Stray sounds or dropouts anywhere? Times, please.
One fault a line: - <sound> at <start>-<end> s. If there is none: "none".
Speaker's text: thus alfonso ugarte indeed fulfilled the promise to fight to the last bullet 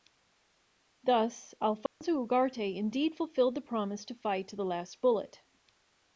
- dropout at 1.9-2.0 s